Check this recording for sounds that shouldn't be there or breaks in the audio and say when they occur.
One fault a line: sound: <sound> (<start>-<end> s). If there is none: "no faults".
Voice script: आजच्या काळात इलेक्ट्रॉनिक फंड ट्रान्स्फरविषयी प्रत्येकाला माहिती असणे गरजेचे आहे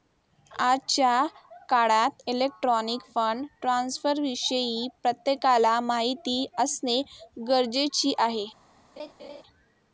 sound: laugh (9.0-9.4 s)